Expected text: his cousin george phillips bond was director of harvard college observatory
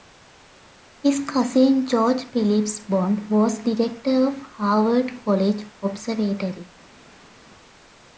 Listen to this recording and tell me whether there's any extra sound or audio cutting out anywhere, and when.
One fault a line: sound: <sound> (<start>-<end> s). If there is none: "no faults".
no faults